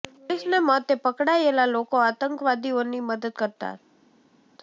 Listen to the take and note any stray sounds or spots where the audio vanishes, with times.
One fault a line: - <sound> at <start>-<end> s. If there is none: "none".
none